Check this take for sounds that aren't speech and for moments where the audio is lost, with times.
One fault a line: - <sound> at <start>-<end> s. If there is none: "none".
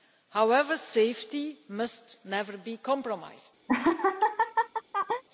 - laugh at 3.7-5.2 s